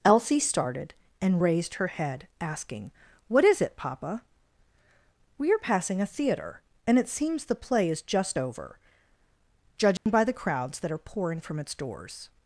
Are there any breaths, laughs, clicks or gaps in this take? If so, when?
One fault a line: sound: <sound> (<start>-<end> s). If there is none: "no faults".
sound: dropout (10.0-10.1 s)